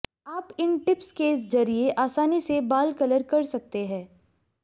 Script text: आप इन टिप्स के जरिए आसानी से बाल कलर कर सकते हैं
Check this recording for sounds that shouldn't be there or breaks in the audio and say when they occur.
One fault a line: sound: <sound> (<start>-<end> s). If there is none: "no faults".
no faults